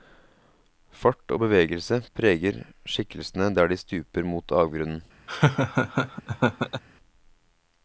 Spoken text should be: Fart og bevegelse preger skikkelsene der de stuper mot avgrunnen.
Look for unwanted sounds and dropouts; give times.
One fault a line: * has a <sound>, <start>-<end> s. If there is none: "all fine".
* has a laugh, 5.3-6.8 s